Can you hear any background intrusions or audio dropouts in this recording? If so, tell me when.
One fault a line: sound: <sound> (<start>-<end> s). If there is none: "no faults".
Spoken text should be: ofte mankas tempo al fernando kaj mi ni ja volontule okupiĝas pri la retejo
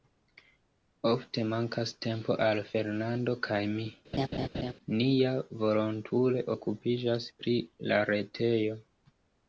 sound: laugh (4.1-4.7 s)